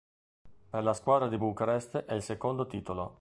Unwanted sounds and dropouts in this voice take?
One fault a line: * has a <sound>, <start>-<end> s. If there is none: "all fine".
all fine